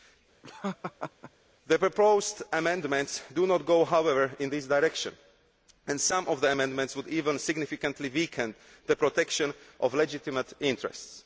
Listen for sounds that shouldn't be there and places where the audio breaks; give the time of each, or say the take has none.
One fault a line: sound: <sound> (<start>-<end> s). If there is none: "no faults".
sound: laugh (0.4-1.3 s)